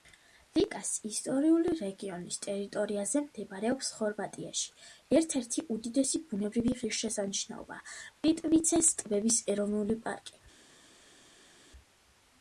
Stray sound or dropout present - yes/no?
no